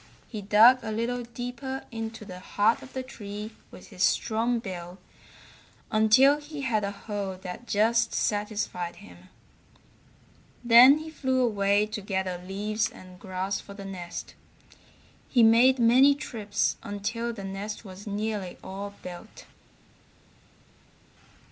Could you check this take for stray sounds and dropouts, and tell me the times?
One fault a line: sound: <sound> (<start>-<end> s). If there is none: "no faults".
no faults